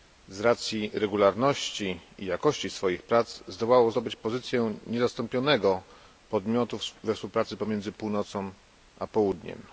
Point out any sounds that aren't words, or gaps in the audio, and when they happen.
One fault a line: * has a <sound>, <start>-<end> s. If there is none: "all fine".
all fine